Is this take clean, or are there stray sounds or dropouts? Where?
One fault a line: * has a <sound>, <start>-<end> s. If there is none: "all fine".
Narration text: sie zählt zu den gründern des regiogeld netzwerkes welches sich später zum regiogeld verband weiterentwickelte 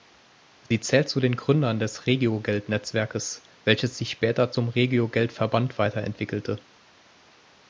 * has a dropout, 0.7-0.7 s